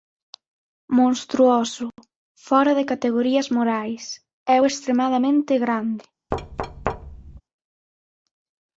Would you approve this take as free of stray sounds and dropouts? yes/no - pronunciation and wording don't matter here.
no